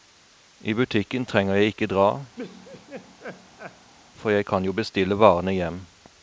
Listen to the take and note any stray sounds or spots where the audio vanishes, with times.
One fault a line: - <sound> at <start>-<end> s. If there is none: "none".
- laugh at 2.4-3.9 s